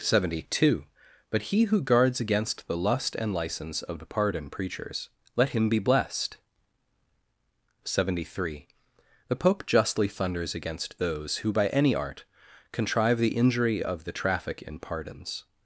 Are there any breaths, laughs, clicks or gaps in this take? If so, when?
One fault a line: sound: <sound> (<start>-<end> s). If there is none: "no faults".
no faults